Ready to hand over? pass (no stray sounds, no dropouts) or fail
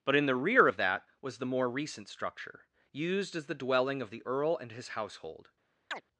fail